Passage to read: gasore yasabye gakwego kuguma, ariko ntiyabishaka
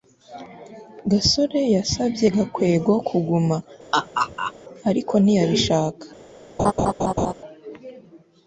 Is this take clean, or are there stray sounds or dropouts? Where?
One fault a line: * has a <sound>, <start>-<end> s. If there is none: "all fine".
* has a laugh, 3.9-4.5 s
* has a laugh, 6.6-7.3 s